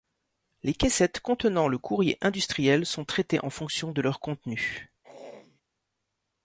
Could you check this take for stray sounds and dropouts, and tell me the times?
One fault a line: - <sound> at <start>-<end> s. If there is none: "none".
- throat clearing at 5.0-5.6 s